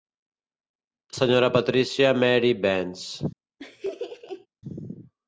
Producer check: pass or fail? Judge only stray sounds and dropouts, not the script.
fail